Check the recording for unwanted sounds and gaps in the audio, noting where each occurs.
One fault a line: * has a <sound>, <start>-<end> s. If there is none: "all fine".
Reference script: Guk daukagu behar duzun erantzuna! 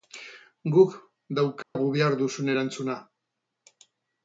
* has a dropout, 1.6-1.8 s